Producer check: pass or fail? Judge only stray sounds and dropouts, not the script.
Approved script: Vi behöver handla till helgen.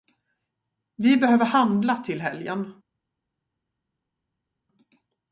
pass